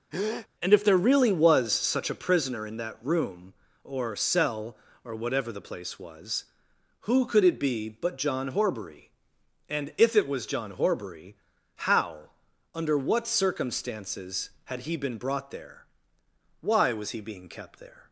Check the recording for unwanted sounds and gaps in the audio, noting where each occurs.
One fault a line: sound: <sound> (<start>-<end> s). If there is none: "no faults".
sound: breath (0.1-0.5 s)